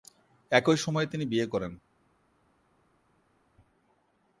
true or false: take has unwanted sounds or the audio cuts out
false